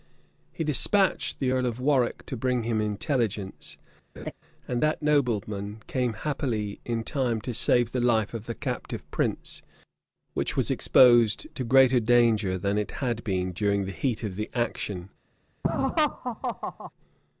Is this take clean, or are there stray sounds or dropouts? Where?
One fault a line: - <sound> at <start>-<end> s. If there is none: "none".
- laugh at 4.2-4.3 s
- laugh at 15.6-16.9 s